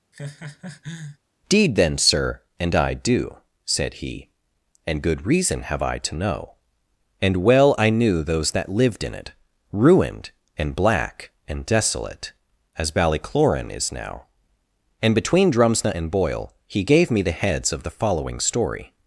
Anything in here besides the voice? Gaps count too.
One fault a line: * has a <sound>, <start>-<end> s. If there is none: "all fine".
* has a laugh, 0.1-1.2 s